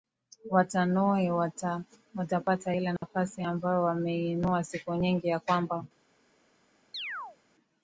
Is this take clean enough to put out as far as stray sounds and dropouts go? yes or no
no